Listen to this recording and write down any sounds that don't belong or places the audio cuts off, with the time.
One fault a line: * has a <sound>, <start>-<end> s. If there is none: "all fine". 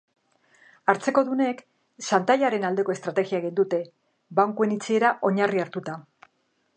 all fine